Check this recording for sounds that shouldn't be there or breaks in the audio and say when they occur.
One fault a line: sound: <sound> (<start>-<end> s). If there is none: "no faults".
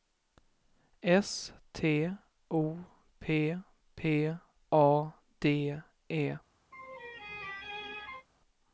sound: laugh (6.7-8.3 s)